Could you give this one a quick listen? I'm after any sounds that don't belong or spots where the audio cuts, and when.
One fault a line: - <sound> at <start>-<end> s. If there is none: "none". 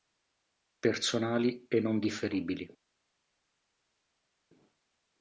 none